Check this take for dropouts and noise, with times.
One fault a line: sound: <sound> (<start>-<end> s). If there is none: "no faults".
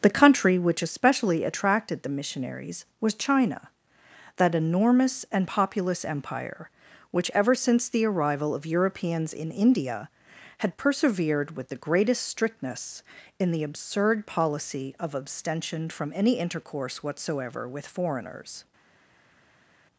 no faults